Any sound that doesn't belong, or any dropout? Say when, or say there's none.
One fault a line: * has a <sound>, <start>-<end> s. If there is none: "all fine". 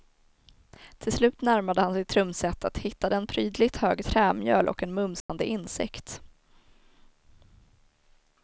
* has a dropout, 5.2-5.3 s